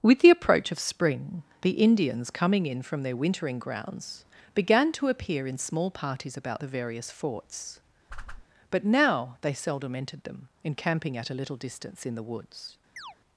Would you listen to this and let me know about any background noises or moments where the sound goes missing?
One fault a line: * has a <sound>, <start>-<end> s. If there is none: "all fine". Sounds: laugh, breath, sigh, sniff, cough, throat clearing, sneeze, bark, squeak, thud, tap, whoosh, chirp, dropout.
* has a whoosh, 8.1-8.4 s
* has a chirp, 13.0-13.2 s